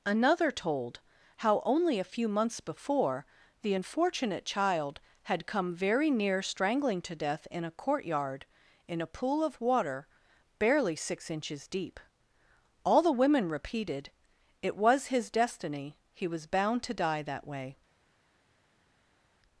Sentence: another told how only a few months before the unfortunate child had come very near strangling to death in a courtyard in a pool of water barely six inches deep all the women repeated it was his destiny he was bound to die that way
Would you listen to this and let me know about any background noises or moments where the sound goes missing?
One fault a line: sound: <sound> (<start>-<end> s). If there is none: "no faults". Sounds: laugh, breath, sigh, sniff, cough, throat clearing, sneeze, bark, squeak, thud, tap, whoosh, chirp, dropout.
no faults